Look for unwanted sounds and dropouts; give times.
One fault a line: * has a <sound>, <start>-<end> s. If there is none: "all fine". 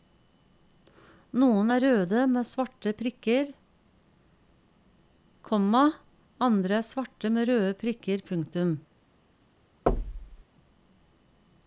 * has a thud, 9.9-10.4 s